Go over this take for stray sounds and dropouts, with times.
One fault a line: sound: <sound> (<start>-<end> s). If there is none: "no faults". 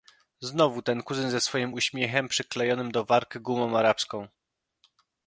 no faults